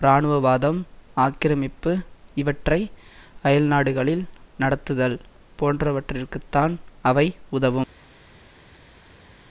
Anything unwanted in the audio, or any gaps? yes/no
no